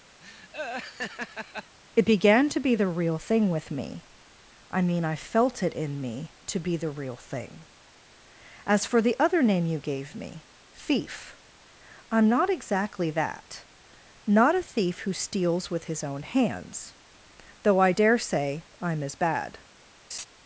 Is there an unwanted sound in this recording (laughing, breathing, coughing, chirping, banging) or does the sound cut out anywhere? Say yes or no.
yes